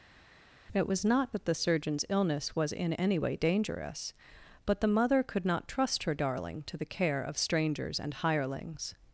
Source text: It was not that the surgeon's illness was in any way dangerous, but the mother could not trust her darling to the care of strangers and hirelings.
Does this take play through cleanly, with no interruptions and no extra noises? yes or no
yes